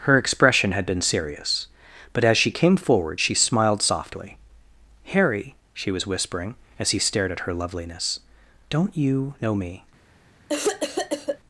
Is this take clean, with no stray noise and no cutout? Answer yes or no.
no